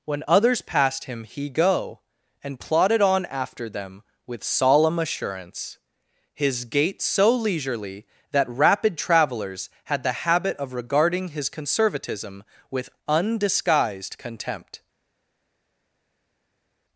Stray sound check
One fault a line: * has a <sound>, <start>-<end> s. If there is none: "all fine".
all fine